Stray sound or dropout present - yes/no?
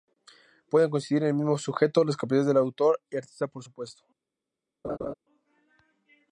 yes